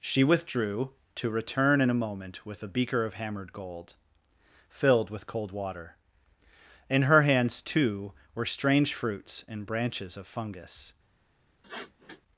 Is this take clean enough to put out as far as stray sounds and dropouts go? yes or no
no